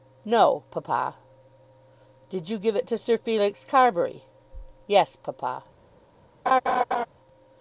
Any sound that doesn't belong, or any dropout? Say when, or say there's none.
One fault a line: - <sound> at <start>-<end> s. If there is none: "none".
- laugh at 6.5-7.1 s